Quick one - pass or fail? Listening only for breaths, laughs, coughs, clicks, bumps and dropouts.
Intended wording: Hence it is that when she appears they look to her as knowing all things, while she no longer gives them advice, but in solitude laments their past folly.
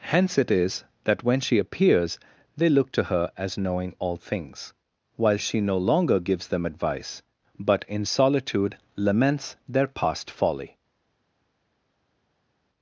pass